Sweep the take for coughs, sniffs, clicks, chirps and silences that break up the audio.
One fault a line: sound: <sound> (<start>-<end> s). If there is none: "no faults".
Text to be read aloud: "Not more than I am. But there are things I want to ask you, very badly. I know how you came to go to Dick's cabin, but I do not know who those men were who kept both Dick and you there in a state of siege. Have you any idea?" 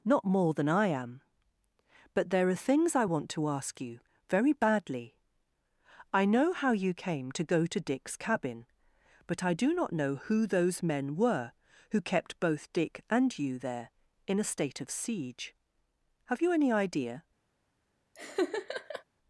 sound: laugh (18.1-19.0 s)